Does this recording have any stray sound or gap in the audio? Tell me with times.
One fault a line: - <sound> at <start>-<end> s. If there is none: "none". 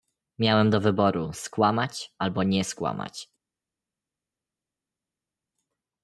none